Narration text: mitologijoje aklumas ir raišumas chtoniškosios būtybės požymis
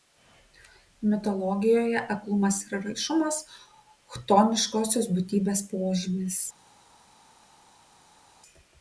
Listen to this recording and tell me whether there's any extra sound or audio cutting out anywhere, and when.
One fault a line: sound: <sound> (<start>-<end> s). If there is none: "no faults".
no faults